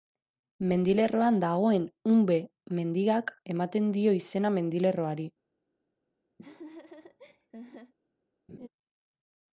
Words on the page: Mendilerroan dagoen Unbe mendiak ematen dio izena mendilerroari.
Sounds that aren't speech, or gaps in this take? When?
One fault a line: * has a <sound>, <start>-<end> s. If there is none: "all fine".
* has a laugh, 6.4-7.9 s
* has a laugh, 8.5-8.7 s